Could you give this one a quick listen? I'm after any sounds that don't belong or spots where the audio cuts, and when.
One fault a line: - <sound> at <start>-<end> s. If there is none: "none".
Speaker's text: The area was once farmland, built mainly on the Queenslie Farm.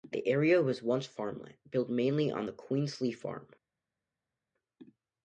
none